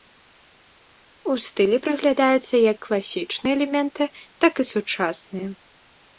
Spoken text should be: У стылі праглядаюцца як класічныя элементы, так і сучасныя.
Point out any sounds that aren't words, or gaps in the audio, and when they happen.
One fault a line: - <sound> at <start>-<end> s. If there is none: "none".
none